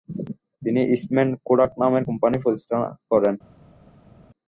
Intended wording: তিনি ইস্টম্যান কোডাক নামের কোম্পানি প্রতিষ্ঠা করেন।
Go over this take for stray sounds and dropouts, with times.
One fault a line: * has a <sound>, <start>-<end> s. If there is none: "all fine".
all fine